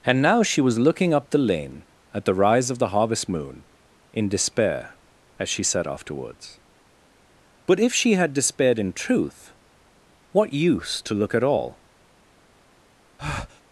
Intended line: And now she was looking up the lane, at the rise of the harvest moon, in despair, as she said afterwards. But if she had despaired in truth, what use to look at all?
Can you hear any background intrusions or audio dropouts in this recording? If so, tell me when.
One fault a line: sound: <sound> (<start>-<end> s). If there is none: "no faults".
sound: breath (13.2-13.6 s)